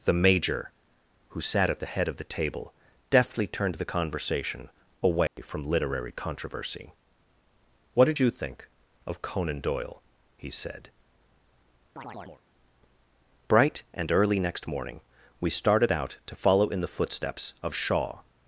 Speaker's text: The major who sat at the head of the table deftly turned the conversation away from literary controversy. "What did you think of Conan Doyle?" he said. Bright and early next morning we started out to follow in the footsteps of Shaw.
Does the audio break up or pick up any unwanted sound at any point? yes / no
yes